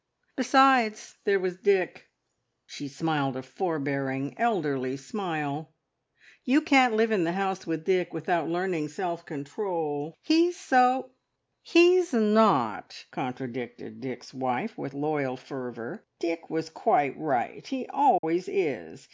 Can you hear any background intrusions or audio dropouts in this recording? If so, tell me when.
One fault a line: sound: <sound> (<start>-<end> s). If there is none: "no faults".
sound: dropout (18.2-18.2 s)